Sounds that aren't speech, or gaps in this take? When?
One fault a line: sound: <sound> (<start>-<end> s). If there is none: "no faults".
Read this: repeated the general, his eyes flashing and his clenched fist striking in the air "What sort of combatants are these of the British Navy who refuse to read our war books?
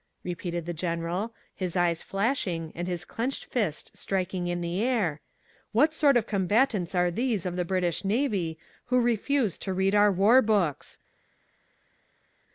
no faults